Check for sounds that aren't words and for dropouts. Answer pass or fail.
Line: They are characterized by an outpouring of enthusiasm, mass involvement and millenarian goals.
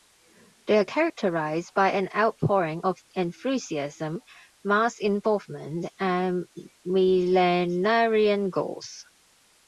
pass